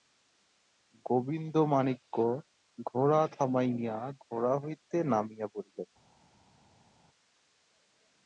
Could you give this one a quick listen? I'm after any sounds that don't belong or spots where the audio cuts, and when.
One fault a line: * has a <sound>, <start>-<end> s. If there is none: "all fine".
all fine